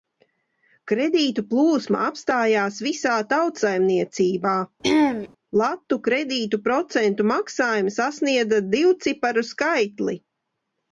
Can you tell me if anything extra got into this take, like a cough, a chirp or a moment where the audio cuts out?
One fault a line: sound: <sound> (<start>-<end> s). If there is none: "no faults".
sound: throat clearing (4.8-5.3 s)